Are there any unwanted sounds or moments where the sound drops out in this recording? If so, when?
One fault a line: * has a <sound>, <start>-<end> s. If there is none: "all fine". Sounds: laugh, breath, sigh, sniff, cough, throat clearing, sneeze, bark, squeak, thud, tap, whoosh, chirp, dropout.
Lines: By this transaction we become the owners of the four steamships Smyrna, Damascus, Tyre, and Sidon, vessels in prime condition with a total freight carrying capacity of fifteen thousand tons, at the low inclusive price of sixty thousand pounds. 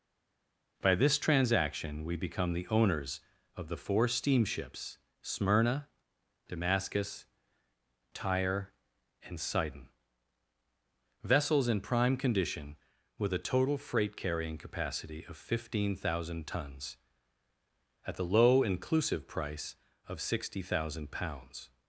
all fine